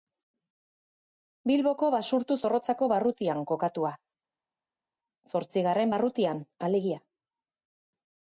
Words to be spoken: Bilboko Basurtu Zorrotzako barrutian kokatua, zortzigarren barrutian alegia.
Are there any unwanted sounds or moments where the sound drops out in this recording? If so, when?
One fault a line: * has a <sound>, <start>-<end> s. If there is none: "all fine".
all fine